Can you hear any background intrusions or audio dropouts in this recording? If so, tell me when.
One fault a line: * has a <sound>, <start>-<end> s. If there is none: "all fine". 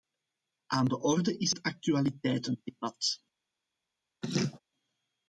* has a laugh, 4.2-4.6 s